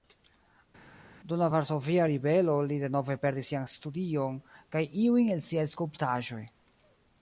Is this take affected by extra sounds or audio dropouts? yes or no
no